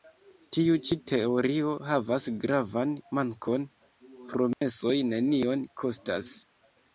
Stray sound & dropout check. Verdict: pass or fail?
fail